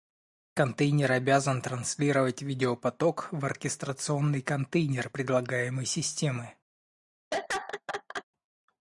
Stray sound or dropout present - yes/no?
yes